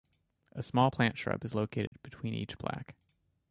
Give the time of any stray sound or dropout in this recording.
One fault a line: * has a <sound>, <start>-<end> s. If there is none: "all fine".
* has a dropout, 1.9-1.9 s